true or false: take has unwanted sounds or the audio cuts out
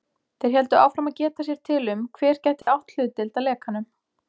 true